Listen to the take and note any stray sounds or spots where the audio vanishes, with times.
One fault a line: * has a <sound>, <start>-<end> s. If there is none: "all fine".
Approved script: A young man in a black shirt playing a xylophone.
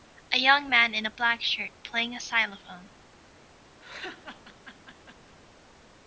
* has a laugh, 3.8-5.3 s